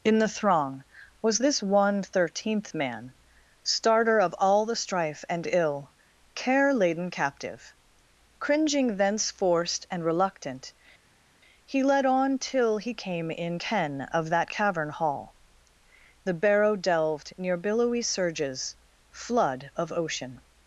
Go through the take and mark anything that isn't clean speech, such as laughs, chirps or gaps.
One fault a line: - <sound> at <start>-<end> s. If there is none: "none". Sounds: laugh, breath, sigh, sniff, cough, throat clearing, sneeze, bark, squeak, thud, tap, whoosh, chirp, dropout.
none